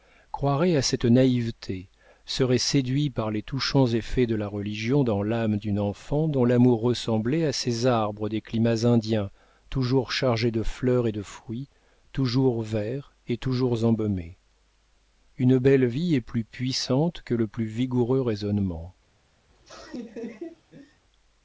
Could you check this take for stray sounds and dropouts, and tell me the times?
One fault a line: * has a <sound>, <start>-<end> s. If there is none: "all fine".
* has a laugh, 19.5-21.0 s